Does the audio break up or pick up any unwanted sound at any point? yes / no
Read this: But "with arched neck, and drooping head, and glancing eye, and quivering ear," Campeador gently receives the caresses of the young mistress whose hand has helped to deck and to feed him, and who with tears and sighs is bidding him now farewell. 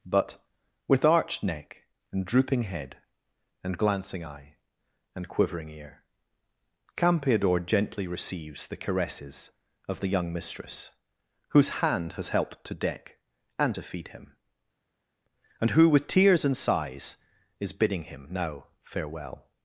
no